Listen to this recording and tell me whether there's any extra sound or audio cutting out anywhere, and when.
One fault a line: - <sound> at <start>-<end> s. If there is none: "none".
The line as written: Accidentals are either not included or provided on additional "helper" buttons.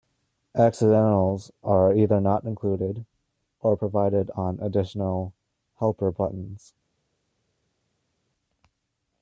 none